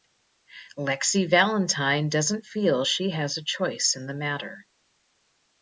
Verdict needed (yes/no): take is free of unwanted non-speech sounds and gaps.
yes